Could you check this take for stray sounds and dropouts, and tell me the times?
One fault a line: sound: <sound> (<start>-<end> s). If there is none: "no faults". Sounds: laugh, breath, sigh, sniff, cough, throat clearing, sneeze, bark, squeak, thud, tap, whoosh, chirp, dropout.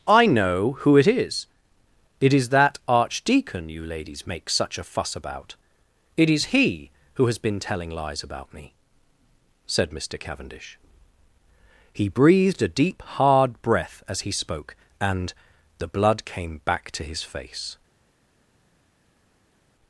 no faults